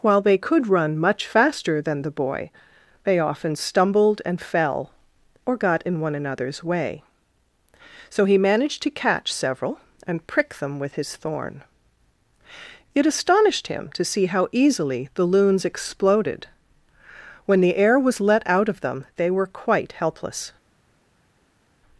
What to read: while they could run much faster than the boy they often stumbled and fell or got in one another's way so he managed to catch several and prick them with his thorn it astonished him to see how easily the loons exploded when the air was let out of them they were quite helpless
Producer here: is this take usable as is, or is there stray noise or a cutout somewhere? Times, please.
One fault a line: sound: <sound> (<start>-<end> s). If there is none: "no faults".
no faults